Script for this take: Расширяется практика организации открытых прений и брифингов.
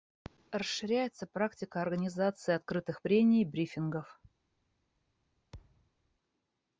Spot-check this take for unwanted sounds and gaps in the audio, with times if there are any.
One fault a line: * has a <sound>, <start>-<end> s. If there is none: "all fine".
* has a thud, 5.5-5.9 s